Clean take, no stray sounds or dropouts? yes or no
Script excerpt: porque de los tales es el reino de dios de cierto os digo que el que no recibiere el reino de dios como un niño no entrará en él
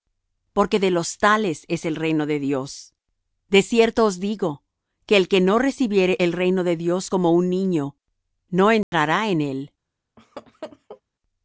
no